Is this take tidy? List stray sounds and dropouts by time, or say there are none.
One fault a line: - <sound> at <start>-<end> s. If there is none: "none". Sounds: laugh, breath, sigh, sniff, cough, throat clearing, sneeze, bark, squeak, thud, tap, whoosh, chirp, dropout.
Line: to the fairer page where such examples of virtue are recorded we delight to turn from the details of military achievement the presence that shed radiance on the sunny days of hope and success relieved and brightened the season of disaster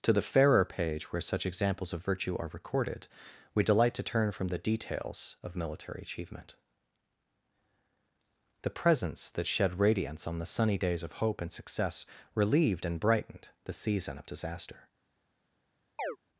- chirp at 16.0-16.2 s